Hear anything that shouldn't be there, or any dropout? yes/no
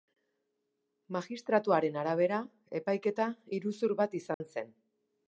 yes